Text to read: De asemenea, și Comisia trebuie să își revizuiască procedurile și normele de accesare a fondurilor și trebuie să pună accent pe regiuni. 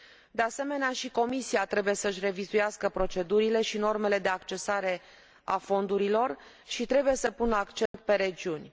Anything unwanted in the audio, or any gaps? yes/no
yes